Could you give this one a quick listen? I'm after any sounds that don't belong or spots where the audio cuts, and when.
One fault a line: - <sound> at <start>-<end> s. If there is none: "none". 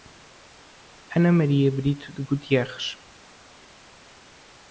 none